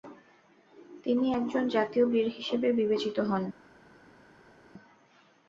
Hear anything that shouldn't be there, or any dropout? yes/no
no